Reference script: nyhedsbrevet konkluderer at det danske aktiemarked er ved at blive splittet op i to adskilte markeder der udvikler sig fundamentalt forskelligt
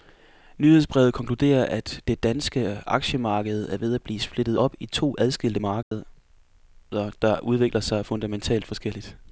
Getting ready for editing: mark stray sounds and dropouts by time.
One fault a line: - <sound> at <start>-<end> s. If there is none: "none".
- dropout at 5.8-5.9 s